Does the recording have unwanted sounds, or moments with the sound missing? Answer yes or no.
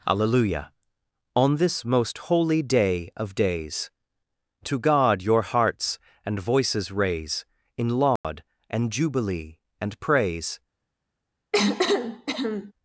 yes